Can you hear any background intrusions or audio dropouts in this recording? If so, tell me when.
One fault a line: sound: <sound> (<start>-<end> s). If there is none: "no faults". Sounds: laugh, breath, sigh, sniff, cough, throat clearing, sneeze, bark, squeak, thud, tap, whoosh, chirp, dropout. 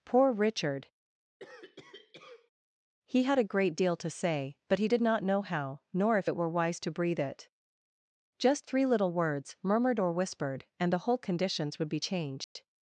sound: cough (1.4-2.5 s)
sound: dropout (12.4-12.6 s)